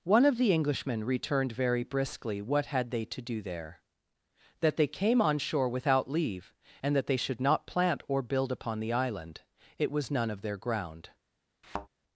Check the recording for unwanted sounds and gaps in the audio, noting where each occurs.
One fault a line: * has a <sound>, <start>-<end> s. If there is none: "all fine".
* has a thud, 11.6-11.9 s